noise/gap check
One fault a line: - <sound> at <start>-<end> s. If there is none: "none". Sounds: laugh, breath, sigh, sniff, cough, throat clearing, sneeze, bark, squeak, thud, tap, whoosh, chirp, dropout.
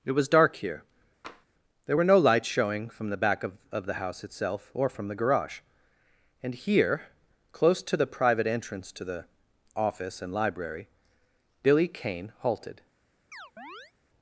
- tap at 1.2-1.5 s
- chirp at 13.3-13.9 s